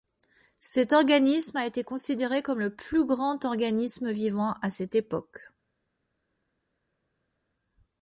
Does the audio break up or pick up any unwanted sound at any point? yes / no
no